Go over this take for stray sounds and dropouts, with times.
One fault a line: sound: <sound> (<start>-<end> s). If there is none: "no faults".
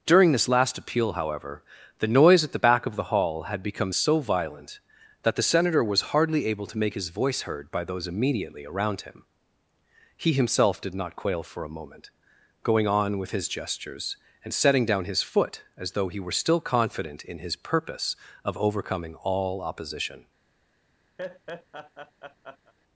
sound: laugh (21.2-22.7 s)